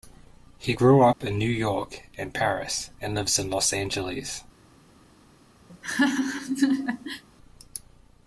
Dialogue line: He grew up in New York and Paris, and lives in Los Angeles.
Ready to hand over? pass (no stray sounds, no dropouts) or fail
fail